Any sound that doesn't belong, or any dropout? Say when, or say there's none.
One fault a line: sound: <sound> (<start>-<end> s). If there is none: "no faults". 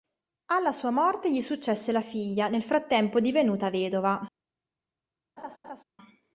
sound: laugh (5.4-5.8 s)